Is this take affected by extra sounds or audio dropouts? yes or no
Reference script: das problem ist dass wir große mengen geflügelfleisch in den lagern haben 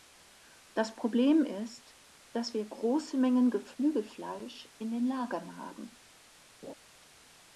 yes